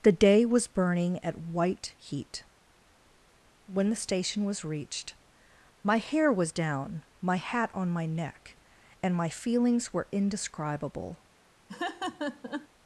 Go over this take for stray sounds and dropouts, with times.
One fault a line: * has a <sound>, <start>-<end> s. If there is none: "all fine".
* has a laugh, 11.7-12.7 s